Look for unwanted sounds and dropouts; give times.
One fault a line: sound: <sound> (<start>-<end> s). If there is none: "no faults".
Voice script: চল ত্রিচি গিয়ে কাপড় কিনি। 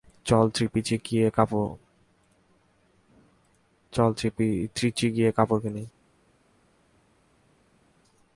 no faults